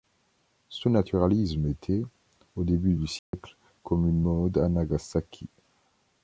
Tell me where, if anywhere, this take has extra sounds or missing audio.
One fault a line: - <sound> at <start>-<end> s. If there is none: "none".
- dropout at 3.2-3.3 s